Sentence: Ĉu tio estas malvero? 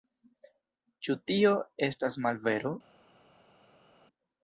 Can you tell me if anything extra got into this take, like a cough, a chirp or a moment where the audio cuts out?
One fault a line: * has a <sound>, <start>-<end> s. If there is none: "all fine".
all fine